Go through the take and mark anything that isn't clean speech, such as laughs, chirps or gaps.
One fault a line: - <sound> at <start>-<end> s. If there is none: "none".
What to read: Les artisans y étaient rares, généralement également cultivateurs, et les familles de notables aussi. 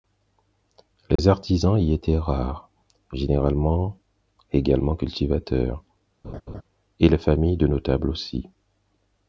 - dropout at 1.2-1.2 s
- laugh at 6.2-6.6 s